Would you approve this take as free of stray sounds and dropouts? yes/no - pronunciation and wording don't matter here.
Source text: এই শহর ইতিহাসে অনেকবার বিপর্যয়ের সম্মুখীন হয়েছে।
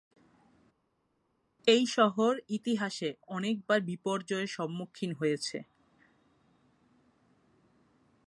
yes